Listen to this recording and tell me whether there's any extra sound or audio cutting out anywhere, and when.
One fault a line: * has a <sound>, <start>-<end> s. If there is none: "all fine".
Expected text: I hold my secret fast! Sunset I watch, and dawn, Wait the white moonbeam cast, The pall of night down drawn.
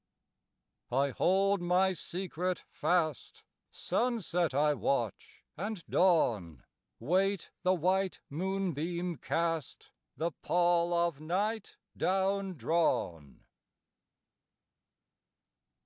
all fine